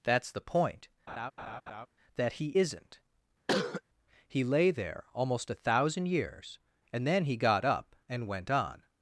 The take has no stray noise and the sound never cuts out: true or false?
false